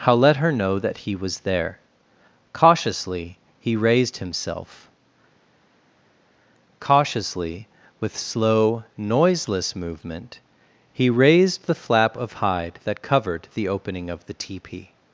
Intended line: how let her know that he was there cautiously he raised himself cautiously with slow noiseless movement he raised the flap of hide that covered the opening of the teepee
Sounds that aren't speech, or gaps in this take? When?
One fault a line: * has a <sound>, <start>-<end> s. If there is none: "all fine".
all fine